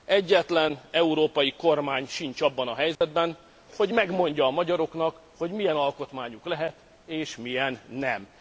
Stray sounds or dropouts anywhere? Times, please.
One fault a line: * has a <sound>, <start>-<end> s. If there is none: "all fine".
* has a dropout, 3.0-3.0 s